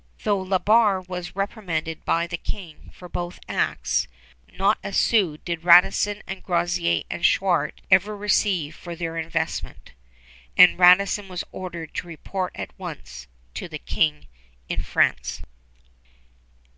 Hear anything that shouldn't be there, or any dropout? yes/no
no